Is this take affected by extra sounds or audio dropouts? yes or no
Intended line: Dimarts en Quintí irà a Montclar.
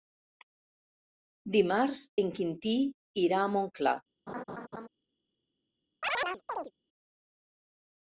yes